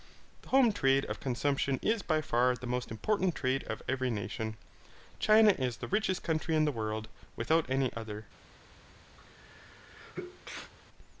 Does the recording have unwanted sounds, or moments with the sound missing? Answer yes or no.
yes